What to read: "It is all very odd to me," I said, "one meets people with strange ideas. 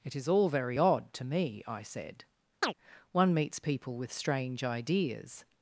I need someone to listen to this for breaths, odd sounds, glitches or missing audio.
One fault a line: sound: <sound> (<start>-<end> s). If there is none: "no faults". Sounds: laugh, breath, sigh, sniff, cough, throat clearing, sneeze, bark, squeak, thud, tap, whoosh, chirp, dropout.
sound: chirp (2.6-2.7 s)